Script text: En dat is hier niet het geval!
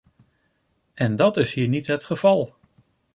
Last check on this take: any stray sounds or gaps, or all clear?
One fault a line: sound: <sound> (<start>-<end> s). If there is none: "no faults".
no faults